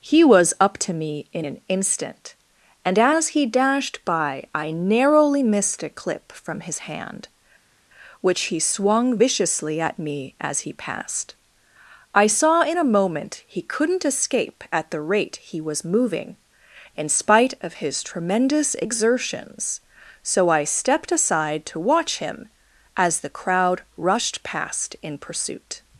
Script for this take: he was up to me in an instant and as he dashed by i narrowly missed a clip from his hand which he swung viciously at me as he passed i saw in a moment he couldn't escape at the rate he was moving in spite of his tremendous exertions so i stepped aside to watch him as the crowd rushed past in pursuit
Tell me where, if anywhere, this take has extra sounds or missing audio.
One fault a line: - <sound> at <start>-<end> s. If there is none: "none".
none